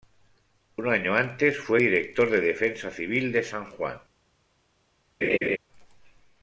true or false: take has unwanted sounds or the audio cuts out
true